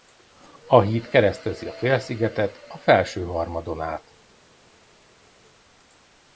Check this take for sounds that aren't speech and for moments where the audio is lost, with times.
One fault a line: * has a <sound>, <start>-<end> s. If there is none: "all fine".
all fine